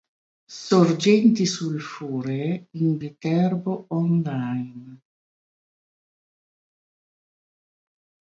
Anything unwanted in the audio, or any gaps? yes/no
no